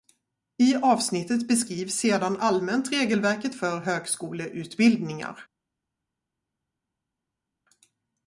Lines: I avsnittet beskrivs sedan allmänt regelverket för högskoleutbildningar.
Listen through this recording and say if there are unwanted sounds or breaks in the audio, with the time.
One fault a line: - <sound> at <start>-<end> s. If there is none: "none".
none